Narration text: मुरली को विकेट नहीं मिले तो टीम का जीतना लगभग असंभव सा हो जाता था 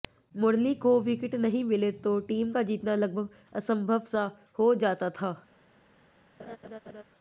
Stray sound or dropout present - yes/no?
yes